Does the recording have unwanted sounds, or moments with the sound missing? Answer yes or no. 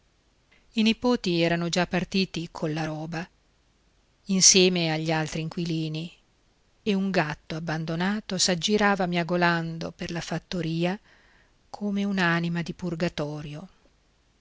no